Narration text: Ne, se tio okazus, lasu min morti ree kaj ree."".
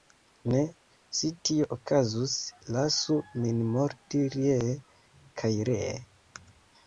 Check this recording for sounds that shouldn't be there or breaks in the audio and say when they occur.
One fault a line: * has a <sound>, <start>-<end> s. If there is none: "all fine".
all fine